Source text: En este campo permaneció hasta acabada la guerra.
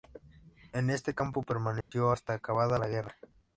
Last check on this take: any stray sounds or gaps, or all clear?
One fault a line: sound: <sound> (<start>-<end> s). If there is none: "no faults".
sound: dropout (1.8-1.9 s)